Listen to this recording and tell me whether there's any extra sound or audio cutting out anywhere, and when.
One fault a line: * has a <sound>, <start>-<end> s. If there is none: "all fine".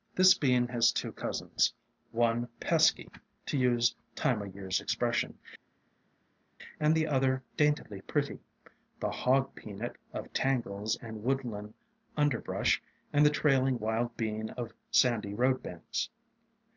all fine